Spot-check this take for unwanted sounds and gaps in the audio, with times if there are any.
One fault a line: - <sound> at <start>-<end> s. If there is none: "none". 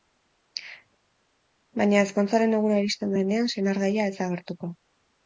none